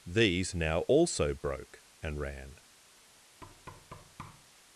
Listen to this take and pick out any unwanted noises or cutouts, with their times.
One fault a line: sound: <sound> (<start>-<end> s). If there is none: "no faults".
sound: thud (3.4-4.5 s)